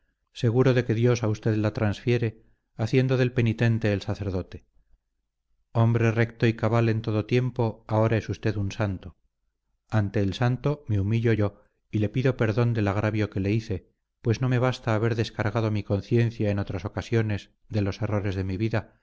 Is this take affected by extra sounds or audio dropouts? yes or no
no